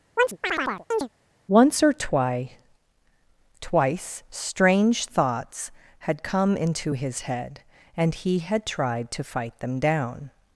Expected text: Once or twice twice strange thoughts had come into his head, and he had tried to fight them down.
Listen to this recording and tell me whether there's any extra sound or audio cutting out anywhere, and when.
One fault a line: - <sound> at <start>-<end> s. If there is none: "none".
- chirp at 0.2-1.1 s